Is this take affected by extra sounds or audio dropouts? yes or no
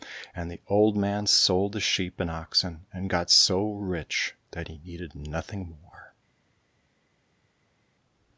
no